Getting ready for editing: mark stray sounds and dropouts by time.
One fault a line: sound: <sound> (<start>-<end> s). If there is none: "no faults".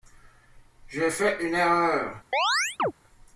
sound: chirp (2.3-2.9 s)